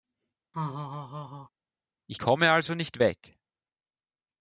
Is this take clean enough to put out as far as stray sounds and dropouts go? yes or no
no